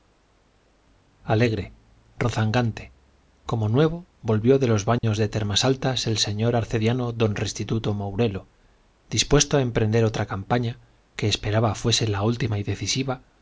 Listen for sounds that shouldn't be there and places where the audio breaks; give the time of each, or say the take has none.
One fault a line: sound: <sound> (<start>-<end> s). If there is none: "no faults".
sound: dropout (5.0-5.0 s)